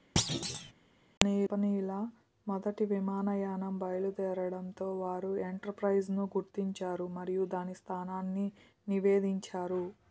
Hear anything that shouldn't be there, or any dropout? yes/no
yes